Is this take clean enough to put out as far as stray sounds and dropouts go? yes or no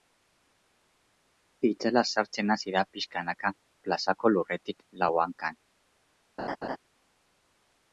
no